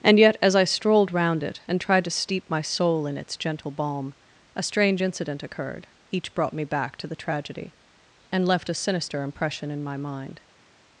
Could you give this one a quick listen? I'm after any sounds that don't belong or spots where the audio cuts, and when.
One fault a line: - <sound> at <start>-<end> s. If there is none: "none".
none